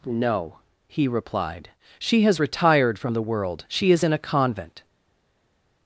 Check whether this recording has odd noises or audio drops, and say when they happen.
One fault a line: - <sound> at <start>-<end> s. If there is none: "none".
none